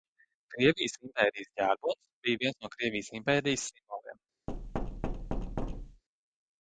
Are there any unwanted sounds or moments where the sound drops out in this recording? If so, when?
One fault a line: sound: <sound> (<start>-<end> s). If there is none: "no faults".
sound: thud (4.5-6.0 s)